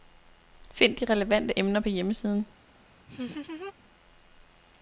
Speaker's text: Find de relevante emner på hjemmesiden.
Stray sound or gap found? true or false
true